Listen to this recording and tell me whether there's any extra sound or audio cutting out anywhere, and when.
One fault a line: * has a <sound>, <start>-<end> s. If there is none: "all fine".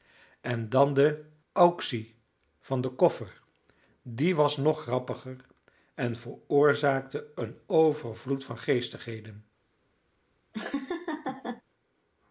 * has a laugh, 10.5-11.6 s